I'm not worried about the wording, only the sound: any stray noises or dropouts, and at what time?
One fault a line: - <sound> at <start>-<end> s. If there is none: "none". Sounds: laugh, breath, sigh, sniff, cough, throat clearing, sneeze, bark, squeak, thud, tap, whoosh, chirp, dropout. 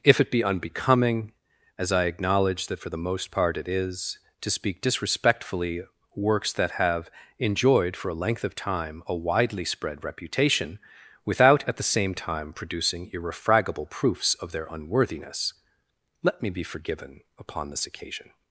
none